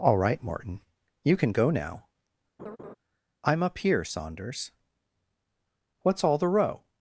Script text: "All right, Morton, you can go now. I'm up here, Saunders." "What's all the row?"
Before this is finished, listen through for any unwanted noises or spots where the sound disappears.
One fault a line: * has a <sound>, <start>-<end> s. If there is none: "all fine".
* has a laugh, 2.6-2.9 s